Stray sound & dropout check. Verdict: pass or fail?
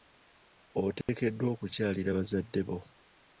fail